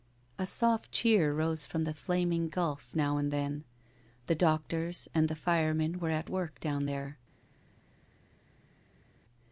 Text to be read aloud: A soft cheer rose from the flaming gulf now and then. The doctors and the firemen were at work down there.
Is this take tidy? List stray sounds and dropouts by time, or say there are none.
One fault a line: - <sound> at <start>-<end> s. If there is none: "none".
none